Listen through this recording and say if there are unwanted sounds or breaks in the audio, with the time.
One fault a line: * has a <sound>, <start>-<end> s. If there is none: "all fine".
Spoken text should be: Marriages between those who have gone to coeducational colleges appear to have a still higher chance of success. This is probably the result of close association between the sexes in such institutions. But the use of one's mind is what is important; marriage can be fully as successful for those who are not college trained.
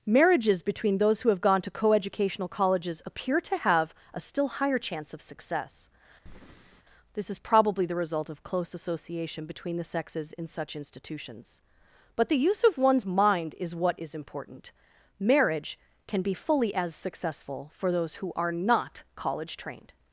* has a breath, 6.3-6.8 s